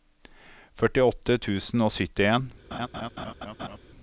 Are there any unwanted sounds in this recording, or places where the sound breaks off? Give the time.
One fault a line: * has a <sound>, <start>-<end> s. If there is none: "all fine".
* has a laugh, 2.7-3.8 s